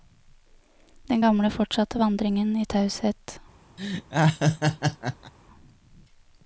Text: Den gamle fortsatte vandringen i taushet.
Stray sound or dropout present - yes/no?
yes